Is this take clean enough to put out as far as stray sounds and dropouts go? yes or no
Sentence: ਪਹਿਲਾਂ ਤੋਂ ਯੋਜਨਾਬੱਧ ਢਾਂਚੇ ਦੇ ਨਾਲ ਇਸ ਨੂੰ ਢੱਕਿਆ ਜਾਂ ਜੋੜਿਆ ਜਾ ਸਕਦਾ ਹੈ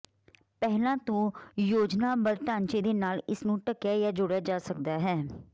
yes